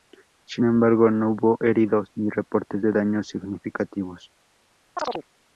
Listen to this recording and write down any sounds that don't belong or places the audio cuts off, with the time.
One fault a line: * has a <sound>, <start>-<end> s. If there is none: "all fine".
* has a chirp, 5.0-5.3 s